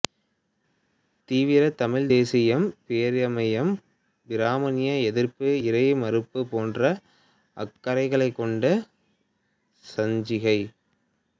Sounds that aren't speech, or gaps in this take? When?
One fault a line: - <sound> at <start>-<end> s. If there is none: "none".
none